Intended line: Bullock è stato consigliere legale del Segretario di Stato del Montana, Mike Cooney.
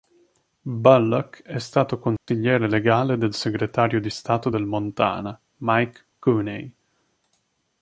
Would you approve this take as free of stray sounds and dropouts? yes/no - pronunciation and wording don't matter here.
no